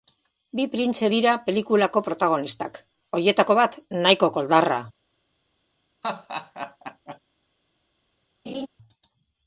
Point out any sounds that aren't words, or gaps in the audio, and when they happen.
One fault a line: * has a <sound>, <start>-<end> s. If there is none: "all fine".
* has a laugh, 6.0-7.2 s
* has a laugh, 8.5-8.7 s